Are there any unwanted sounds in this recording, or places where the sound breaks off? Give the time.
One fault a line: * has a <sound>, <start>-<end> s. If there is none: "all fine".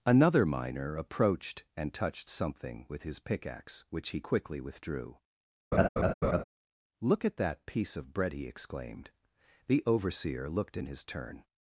* has a laugh, 5.7-6.4 s